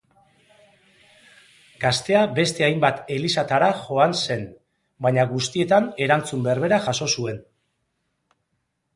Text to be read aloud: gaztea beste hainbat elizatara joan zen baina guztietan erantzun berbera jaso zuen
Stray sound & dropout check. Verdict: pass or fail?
pass